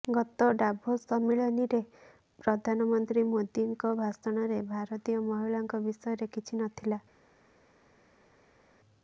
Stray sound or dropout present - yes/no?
no